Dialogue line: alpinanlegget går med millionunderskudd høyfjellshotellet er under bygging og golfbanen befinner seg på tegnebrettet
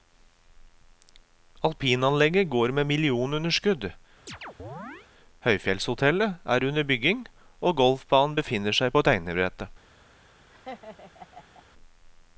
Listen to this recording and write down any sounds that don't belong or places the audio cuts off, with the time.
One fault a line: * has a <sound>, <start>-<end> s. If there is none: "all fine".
* has a chirp, 4.3-5.1 s
* has a laugh, 10.5-11.6 s